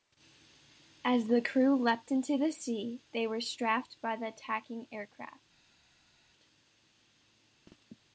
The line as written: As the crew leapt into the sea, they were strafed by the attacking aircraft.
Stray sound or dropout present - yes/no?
no